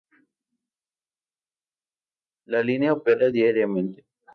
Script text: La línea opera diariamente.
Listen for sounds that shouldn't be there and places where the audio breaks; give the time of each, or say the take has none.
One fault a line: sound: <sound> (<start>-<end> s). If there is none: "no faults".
no faults